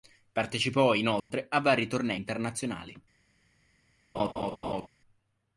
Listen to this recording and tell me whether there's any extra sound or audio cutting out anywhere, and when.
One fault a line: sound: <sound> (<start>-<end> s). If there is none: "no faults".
sound: dropout (1.2-1.3 s)
sound: laugh (4.1-4.9 s)